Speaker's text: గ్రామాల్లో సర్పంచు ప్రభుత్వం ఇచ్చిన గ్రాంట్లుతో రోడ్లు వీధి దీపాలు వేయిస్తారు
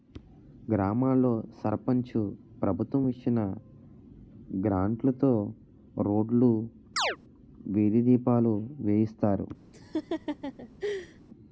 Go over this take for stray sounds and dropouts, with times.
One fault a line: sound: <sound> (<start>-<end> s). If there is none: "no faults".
sound: chirp (7.0-7.2 s)
sound: laugh (9.7-11.2 s)